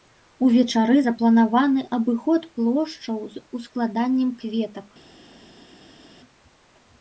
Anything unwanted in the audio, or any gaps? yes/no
no